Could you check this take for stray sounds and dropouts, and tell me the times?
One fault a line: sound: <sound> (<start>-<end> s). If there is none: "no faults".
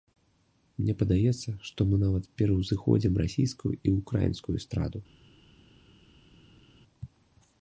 no faults